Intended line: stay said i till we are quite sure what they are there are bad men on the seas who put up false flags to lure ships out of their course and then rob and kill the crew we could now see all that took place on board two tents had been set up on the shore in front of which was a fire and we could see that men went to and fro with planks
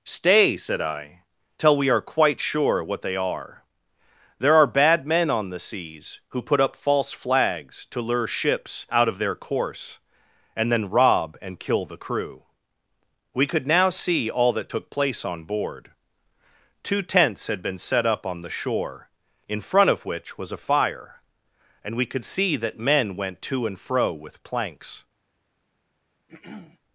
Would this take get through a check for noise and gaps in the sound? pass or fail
fail